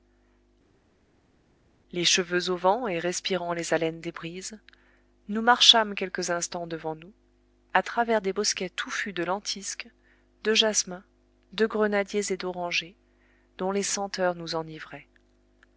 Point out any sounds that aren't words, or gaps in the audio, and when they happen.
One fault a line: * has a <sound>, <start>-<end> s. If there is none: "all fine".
all fine